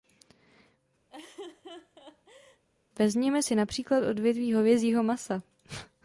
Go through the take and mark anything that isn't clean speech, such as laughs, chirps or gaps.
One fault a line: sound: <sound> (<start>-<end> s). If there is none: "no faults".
sound: laugh (1.1-2.6 s)